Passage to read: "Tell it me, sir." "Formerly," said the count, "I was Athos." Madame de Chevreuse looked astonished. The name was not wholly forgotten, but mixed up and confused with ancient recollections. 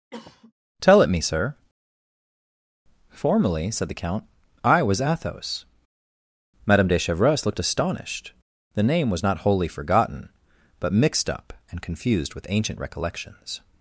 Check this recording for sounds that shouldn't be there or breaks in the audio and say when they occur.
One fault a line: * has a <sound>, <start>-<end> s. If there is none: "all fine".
* has a cough, 0.1-0.5 s